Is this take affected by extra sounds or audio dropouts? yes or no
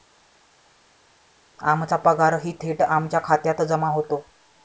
no